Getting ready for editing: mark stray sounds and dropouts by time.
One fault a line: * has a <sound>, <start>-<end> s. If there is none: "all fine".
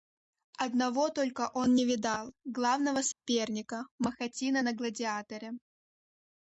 * has a dropout, 3.1-3.3 s